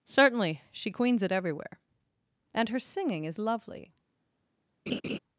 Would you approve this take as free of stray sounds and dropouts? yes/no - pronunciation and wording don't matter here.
no